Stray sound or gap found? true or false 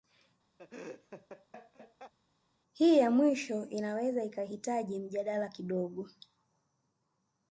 true